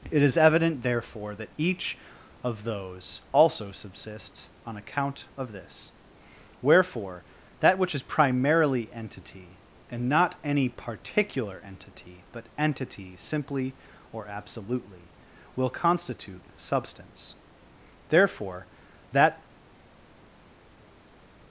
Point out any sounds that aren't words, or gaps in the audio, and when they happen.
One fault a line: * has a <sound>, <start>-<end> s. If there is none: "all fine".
all fine